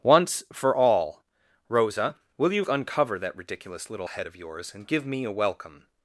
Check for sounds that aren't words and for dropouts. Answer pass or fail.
pass